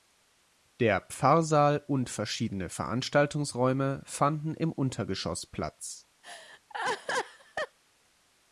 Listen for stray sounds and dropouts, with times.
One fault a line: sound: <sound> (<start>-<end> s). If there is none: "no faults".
sound: laugh (6.2-7.8 s)